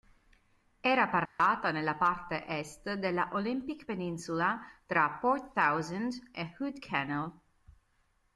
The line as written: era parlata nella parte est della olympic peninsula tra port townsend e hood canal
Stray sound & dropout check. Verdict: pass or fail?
fail